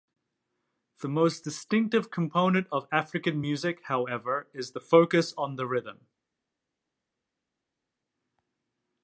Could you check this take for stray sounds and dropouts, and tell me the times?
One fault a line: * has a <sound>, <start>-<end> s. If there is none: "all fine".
all fine